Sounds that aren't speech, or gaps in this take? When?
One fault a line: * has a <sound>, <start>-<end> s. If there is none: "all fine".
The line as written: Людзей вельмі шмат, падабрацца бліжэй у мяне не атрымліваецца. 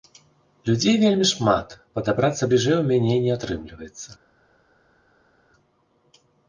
all fine